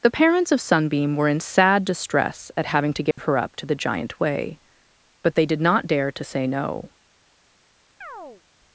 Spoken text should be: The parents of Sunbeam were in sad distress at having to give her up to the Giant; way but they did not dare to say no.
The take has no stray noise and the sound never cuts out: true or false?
false